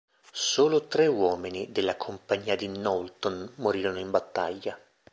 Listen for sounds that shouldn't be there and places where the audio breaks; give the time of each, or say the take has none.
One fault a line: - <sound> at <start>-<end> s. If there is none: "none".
none